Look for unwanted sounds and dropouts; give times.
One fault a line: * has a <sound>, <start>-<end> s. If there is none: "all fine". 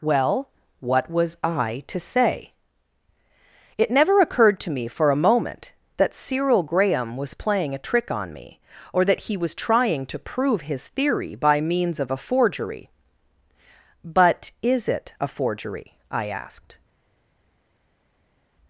all fine